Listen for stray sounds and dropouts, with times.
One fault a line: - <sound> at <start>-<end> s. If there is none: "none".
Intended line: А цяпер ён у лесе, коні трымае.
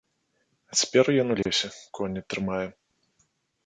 - dropout at 1.4-1.5 s